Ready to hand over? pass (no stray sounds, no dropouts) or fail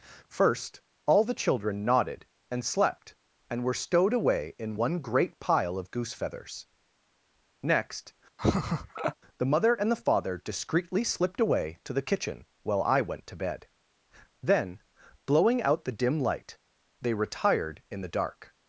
fail